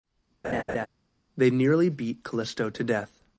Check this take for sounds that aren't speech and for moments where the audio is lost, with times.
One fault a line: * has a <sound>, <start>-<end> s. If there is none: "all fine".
* has a laugh, 0.4-0.9 s